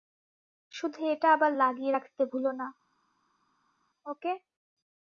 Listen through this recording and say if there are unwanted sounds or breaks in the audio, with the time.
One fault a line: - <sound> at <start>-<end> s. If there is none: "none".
none